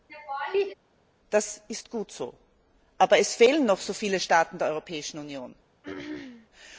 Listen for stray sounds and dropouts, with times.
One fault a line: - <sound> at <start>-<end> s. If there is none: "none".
- laugh at 0.1-0.7 s
- throat clearing at 5.8-6.5 s